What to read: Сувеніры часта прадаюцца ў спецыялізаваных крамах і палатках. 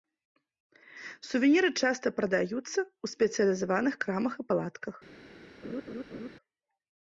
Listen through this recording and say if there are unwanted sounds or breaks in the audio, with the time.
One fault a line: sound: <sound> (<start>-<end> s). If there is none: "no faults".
sound: laugh (5.6-6.3 s)